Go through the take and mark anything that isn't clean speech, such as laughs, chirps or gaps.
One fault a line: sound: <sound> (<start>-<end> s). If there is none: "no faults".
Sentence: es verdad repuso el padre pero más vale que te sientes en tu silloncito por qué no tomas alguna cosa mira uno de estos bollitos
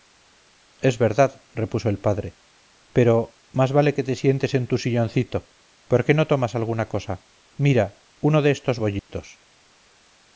sound: dropout (9.0-9.1 s)